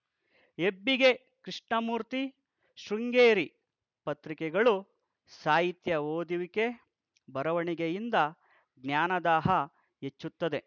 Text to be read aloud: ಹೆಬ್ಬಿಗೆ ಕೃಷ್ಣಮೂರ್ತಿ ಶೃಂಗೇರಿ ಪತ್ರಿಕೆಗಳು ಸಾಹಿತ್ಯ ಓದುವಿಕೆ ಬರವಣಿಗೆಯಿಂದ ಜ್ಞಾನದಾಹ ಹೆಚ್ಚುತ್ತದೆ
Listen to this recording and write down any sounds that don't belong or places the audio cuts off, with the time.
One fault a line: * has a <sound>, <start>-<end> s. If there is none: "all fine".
all fine